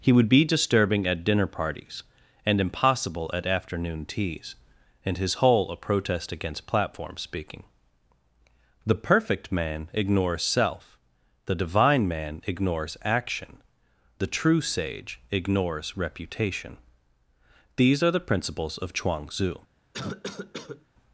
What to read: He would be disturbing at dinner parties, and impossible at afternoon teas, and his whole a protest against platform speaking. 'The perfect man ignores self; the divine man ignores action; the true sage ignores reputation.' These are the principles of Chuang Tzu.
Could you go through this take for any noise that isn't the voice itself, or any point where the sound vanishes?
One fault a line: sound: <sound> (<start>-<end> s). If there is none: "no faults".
sound: cough (19.9-20.9 s)